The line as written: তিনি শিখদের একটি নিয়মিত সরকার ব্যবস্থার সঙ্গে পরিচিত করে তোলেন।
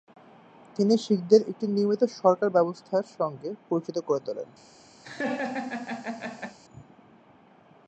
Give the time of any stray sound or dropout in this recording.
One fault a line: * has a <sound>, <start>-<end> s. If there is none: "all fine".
* has a laugh, 5.0-6.6 s